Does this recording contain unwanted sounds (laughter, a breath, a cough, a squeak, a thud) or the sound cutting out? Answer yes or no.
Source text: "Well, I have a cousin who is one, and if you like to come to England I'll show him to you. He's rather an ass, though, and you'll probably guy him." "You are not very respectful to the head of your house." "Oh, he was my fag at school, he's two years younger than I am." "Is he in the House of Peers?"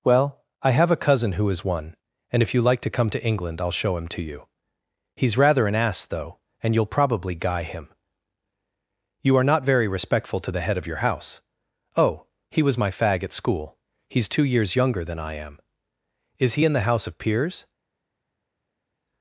no